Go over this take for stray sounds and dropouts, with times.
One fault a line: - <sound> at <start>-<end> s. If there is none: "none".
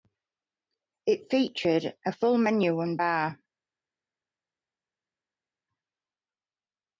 none